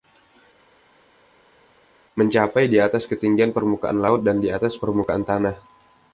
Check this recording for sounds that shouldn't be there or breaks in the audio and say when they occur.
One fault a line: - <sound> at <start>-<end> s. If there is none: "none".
none